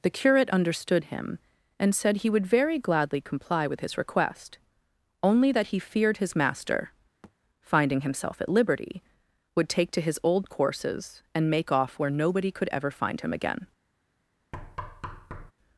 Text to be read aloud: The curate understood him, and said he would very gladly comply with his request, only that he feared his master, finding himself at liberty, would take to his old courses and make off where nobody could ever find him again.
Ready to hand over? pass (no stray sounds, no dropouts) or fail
fail